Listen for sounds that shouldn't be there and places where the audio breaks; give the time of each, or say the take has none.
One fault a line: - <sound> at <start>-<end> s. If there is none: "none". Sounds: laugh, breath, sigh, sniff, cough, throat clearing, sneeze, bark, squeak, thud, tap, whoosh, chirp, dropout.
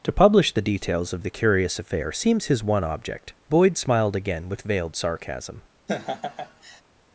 - laugh at 5.9-6.8 s